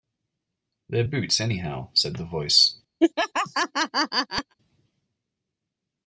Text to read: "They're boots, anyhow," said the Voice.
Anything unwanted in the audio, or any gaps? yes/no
yes